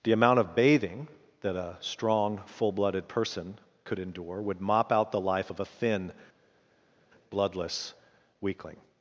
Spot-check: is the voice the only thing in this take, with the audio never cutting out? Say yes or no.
yes